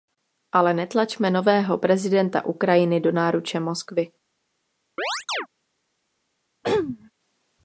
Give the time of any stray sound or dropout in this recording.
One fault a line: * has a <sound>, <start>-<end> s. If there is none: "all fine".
* has a chirp, 5.0-5.5 s
* has a throat clearing, 6.6-7.1 s